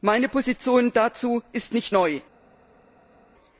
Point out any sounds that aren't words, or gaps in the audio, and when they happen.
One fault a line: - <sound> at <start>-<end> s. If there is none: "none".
none